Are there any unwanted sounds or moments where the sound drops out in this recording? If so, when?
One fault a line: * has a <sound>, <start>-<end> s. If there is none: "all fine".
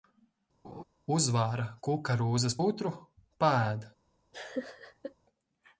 * has a laugh, 0.6-0.8 s
* has a laugh, 4.3-5.1 s